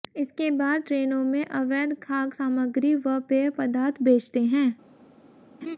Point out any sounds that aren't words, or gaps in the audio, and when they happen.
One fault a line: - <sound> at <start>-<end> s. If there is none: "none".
- laugh at 5.6-5.8 s